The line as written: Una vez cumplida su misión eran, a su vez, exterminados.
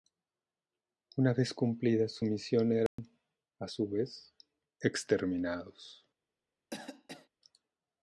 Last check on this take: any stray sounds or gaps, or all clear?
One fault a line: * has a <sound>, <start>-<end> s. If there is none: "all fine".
* has a dropout, 2.9-3.0 s
* has a cough, 6.7-7.3 s